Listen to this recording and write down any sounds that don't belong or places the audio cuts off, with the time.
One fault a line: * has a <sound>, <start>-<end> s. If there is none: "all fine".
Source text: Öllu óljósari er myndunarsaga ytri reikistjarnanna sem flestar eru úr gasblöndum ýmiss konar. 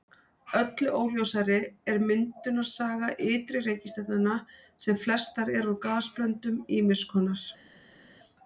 all fine